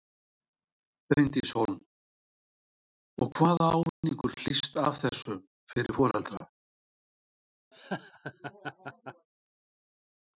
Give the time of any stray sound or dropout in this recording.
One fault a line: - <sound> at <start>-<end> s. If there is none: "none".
- dropout at 3.9-4.0 s
- laugh at 7.7-9.3 s